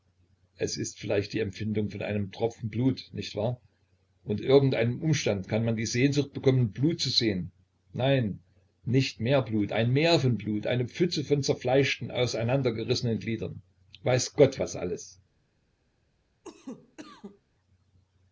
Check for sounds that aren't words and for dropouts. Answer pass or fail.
fail